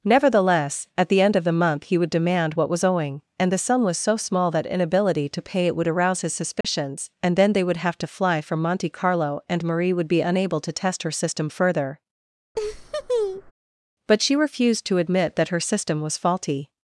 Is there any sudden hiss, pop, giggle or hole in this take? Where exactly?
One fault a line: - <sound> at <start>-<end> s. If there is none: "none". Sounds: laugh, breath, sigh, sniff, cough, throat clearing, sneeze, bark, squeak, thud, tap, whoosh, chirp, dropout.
- dropout at 6.6-6.6 s
- laugh at 12.5-13.5 s